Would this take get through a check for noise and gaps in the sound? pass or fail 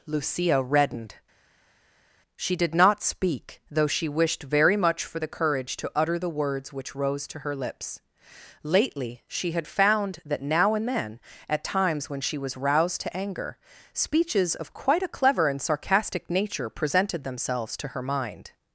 pass